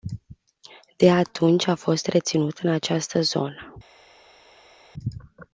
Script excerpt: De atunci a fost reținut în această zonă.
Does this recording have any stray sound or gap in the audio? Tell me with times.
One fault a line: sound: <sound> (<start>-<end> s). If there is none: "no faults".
no faults